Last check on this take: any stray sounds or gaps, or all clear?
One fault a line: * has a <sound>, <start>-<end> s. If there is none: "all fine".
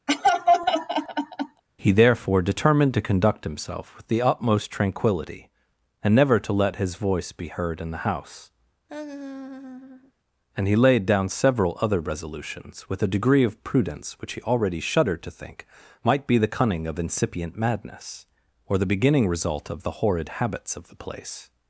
* has a laugh, 0.1-1.6 s
* has a laugh, 8.9-10.1 s